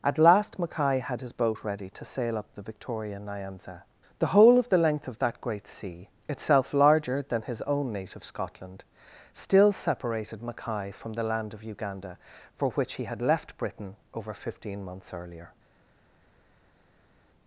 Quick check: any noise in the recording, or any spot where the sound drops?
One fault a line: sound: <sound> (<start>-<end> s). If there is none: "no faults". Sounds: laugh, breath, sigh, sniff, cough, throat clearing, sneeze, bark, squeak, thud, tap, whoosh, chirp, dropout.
no faults